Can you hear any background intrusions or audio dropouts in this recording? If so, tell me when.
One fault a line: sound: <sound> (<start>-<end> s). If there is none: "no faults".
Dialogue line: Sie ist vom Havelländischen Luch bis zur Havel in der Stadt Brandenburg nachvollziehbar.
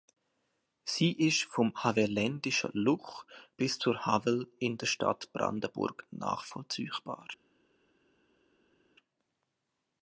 no faults